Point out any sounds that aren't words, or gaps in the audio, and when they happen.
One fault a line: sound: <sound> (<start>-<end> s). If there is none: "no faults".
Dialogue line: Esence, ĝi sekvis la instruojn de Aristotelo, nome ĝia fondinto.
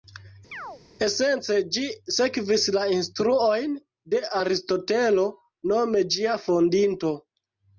sound: chirp (0.5-0.8 s)